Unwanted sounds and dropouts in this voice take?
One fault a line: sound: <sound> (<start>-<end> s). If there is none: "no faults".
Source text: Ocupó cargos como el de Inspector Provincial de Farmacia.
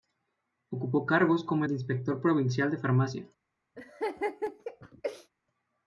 sound: laugh (3.8-5.3 s)